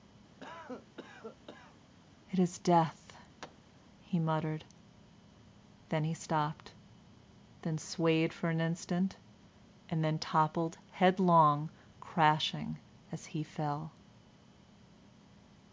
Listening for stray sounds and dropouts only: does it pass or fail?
fail